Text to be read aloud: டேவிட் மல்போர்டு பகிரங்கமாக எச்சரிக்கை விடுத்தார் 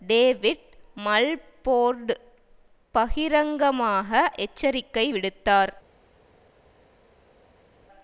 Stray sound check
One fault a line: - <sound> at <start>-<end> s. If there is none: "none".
none